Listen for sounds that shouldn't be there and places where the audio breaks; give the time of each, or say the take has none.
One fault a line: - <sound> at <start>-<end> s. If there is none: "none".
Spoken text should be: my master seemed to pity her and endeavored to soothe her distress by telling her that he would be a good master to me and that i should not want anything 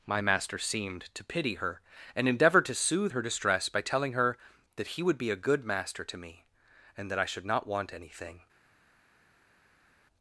none